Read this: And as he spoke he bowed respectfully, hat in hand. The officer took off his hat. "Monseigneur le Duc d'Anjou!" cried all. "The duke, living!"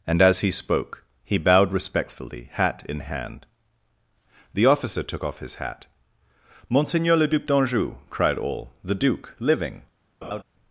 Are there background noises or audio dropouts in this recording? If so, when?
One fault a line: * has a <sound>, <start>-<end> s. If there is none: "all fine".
* has a laugh, 10.2-10.4 s